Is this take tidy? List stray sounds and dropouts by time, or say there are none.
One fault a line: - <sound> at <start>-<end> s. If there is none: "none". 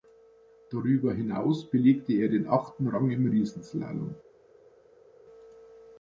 none